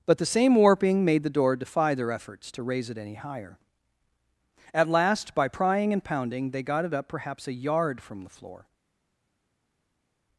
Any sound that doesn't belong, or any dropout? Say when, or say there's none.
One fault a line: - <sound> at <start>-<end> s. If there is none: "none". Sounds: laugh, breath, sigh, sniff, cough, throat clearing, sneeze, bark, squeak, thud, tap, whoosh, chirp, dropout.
none